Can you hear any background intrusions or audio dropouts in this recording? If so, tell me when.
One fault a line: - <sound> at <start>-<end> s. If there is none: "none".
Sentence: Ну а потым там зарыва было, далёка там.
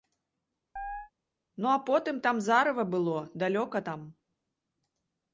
- chirp at 0.8-1.1 s